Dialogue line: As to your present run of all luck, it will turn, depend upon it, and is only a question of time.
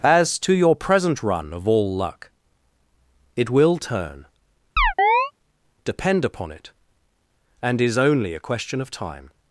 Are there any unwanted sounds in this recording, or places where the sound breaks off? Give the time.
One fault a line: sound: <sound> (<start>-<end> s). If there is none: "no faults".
sound: chirp (4.8-5.3 s)